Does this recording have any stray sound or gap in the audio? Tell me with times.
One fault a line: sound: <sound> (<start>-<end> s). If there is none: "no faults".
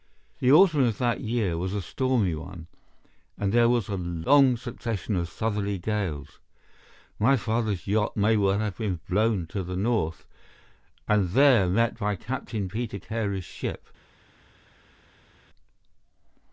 no faults